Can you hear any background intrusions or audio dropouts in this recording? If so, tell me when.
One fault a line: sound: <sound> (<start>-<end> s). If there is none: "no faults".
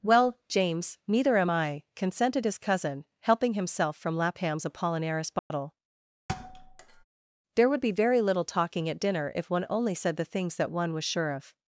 sound: dropout (5.4-5.5 s)
sound: thud (6.3-7.0 s)